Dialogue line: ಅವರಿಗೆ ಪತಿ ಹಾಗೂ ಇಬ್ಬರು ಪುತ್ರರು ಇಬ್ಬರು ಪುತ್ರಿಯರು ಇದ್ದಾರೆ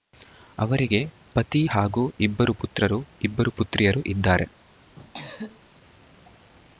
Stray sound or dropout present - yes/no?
yes